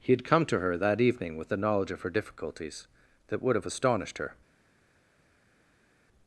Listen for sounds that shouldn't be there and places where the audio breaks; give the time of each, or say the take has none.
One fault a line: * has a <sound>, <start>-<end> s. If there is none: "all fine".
all fine